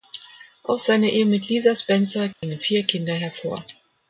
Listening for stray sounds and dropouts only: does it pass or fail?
fail